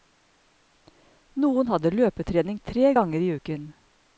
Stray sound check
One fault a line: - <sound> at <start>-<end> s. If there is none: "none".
none